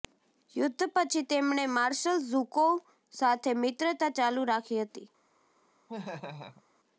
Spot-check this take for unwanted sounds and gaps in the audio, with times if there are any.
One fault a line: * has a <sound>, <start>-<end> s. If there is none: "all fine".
* has a laugh, 5.9-6.6 s